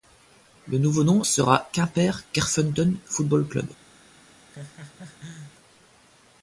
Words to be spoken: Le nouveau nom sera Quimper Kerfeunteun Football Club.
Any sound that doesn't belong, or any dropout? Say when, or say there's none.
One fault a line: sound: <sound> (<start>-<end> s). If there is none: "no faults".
sound: laugh (4.5-5.5 s)